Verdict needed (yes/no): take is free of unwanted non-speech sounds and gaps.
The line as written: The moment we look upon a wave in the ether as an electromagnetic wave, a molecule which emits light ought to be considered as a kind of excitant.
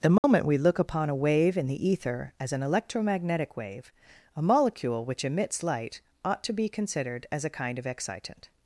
no